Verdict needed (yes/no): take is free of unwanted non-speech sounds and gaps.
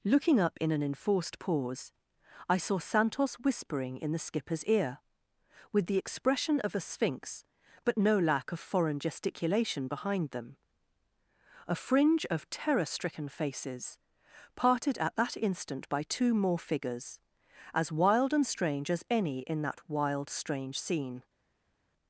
yes